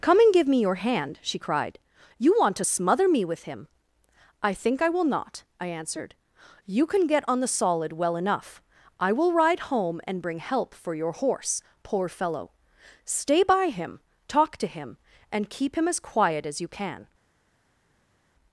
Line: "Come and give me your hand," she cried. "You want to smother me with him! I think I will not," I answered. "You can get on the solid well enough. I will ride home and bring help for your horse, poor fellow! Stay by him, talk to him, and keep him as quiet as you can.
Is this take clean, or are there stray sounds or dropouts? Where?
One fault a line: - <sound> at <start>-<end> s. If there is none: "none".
none